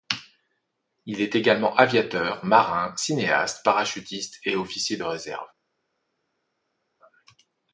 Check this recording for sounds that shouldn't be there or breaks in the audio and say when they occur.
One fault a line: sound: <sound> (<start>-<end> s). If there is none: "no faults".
no faults